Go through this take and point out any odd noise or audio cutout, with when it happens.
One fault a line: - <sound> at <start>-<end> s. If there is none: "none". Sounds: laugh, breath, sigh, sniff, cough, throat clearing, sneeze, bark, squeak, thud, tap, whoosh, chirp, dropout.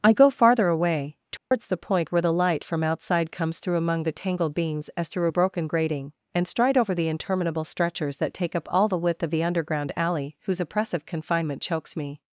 - dropout at 1.4-1.5 s